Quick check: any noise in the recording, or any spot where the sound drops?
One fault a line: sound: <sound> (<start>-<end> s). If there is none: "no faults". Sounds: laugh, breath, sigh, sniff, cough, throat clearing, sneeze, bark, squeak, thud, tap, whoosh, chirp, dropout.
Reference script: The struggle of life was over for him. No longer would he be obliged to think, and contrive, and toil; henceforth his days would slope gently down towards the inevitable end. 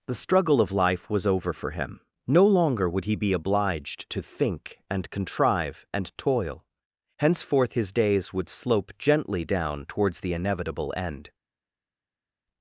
no faults